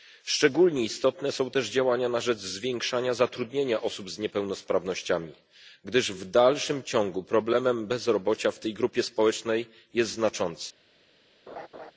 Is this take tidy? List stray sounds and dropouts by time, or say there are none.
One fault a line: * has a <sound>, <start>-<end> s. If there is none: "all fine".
* has a laugh, 11.5-11.9 s